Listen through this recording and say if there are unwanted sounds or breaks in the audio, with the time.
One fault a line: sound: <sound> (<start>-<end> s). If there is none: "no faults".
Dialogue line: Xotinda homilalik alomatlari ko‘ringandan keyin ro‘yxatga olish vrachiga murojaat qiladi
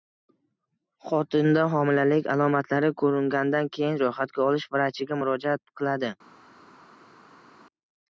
no faults